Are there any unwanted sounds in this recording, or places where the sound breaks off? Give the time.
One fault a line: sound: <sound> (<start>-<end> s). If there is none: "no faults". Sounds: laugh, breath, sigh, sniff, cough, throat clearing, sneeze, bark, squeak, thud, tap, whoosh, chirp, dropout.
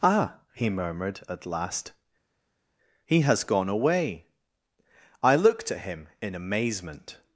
no faults